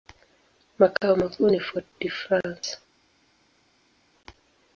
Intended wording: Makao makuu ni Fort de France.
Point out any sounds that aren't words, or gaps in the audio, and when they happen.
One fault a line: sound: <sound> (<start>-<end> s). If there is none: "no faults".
no faults